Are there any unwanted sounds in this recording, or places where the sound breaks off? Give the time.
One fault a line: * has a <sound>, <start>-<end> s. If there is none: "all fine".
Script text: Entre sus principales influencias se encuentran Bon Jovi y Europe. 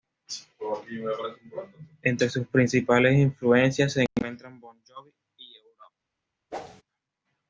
* has a whoosh, 6.5-6.8 s